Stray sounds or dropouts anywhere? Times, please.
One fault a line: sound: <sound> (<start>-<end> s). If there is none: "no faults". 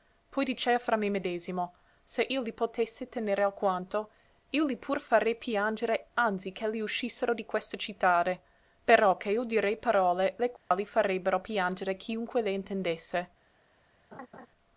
sound: dropout (10.6-10.7 s)
sound: laugh (14.1-14.5 s)